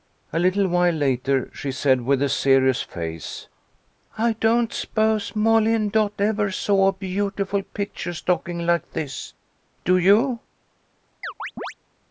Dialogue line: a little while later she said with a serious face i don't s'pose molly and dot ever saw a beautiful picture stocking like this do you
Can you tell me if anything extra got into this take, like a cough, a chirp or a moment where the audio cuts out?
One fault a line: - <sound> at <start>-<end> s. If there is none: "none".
- chirp at 11.2-11.7 s